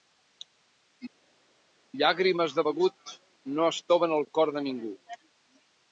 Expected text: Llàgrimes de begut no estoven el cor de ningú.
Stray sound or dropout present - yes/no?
no